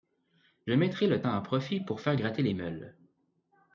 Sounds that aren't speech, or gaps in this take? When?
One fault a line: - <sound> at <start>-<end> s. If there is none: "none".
none